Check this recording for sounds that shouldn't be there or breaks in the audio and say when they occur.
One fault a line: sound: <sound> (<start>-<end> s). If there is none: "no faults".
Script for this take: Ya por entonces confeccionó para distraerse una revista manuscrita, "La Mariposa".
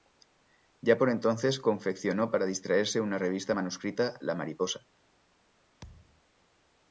sound: thud (5.8-6.2 s)